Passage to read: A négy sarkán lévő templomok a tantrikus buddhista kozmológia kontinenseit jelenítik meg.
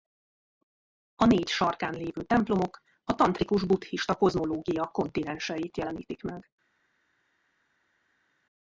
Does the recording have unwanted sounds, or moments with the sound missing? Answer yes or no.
no